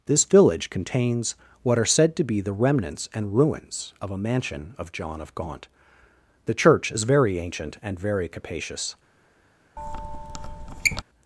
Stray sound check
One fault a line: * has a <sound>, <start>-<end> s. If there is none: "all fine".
* has a squeak, 9.8-11.0 s